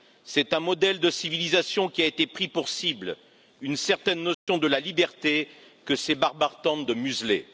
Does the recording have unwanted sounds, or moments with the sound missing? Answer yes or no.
yes